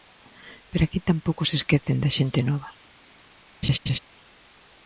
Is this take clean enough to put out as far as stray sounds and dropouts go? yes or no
no